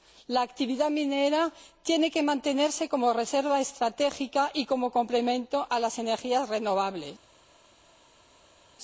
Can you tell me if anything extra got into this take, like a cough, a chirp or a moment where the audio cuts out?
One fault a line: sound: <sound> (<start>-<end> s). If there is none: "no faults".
no faults